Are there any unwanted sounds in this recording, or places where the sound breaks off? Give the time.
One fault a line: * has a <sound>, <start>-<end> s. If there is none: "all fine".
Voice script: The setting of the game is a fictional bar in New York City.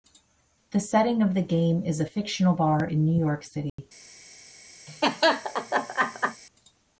* has a dropout, 3.7-3.8 s
* has a laugh, 4.9-6.4 s